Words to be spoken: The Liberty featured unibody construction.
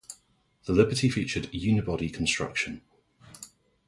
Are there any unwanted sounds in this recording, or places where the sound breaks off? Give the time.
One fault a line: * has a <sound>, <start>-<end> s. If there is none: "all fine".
all fine